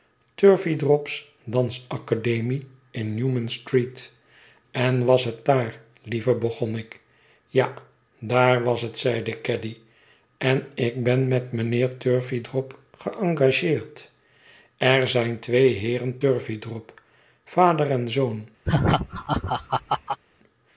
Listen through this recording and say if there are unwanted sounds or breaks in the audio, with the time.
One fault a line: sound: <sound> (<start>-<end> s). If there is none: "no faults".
sound: laugh (18.6-20.2 s)